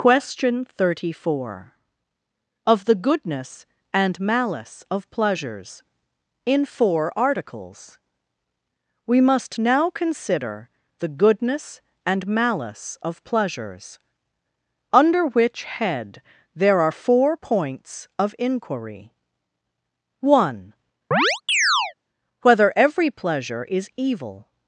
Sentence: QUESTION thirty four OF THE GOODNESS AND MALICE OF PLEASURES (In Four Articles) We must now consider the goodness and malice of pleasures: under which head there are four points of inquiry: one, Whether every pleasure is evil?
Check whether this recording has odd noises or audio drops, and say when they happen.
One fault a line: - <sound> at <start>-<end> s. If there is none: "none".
- chirp at 21.1-21.9 s